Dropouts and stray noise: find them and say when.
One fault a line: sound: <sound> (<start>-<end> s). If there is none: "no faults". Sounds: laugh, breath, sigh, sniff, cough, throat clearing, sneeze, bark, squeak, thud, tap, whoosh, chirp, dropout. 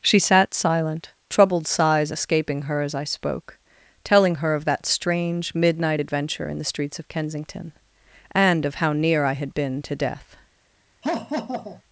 sound: laugh (11.0-11.8 s)